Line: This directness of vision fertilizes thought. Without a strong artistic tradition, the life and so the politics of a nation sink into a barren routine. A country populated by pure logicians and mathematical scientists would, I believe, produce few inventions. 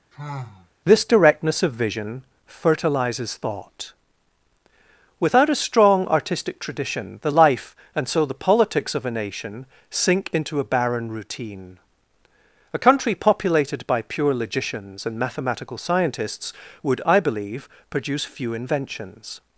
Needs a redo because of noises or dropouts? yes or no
yes